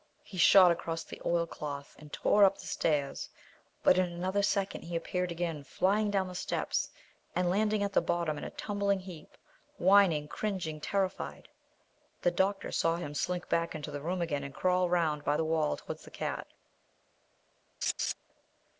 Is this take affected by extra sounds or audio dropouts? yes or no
yes